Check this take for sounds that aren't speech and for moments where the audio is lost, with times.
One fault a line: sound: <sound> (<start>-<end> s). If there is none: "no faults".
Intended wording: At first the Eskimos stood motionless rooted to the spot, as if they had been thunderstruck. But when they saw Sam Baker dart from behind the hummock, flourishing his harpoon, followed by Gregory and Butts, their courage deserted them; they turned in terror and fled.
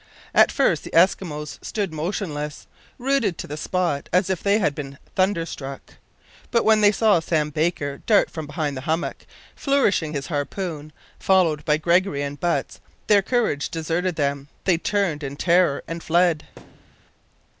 sound: thud (16.6-17.1 s)